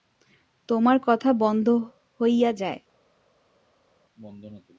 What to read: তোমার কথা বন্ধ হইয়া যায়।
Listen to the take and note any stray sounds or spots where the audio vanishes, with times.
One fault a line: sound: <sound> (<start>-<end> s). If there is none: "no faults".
no faults